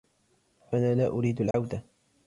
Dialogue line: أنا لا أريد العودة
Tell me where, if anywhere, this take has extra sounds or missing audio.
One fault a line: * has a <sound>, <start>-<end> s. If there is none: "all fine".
* has a dropout, 1.5-1.5 s